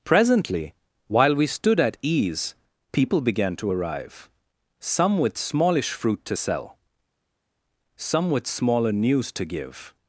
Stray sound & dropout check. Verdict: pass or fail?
pass